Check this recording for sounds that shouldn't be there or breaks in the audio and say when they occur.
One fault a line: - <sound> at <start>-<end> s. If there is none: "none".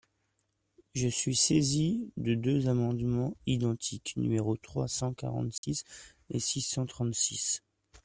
- dropout at 5.6-5.6 s